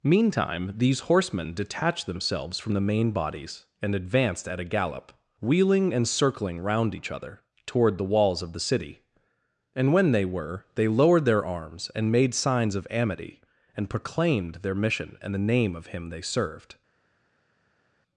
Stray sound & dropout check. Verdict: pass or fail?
pass